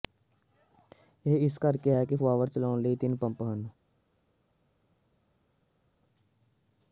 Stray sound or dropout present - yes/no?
no